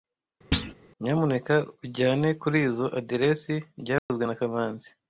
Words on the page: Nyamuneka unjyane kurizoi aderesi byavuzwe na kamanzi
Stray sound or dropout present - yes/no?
yes